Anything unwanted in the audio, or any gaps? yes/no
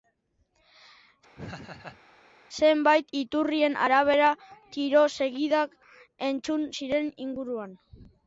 yes